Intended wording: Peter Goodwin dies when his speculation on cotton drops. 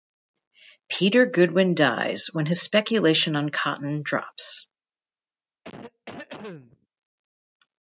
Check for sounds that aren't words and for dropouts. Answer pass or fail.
fail